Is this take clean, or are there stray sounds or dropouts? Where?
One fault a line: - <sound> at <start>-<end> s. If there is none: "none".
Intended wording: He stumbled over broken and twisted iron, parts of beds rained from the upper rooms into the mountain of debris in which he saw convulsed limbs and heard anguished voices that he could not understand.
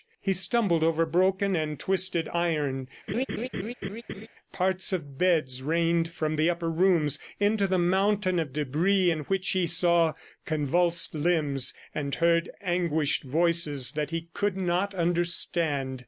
- laugh at 3.1-4.3 s